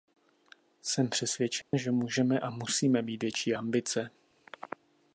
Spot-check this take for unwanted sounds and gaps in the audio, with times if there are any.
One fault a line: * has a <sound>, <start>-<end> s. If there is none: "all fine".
* has a dropout, 1.6-1.7 s